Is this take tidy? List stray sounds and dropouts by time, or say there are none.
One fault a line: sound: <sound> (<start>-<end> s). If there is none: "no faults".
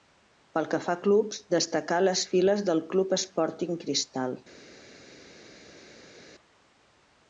no faults